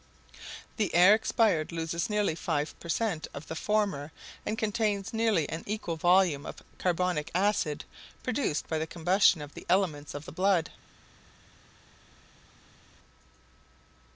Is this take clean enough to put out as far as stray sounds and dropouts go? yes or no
yes